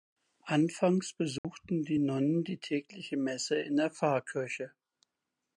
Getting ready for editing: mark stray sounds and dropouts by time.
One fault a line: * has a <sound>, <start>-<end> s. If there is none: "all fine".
* has a dropout, 1.4-1.4 s